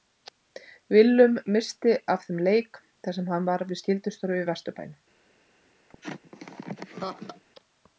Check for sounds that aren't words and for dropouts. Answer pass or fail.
fail